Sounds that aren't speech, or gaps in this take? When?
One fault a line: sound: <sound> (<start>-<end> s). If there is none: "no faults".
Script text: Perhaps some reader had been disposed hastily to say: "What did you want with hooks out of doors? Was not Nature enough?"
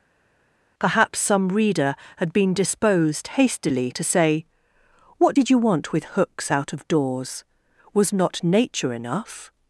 no faults